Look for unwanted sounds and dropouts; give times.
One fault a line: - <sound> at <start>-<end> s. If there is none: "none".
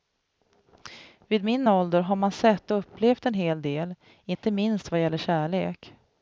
- dropout at 4.3-4.4 s